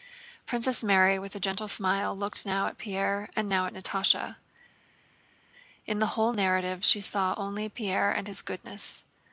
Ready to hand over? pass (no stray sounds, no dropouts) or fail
pass